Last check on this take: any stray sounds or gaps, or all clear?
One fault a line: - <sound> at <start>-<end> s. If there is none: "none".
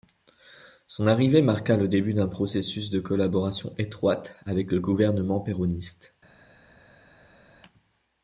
none